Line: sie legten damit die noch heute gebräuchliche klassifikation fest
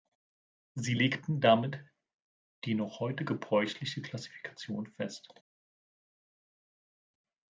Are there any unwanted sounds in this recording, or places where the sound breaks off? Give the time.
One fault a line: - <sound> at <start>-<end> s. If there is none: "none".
none